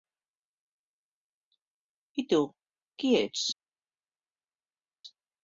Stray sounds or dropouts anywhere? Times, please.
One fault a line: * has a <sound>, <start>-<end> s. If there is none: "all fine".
all fine